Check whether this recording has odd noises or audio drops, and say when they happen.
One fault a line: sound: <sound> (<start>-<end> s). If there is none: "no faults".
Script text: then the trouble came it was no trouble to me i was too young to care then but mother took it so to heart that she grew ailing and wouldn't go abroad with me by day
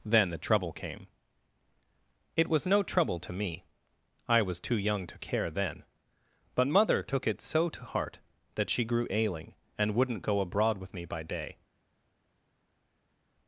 no faults